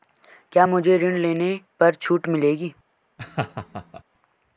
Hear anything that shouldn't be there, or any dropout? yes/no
yes